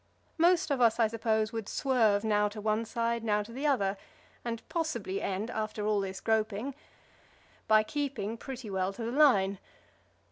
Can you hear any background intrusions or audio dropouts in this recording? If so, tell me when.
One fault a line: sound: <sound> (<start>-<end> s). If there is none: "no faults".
no faults